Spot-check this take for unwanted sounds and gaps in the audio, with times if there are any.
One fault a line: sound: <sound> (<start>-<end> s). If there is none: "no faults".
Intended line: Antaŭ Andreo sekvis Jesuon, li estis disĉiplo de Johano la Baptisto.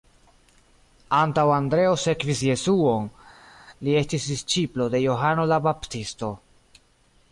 no faults